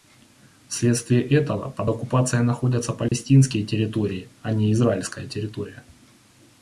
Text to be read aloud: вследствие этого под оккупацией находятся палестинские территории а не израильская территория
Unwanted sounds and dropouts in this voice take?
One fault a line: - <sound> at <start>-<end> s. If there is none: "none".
- dropout at 3.1-3.1 s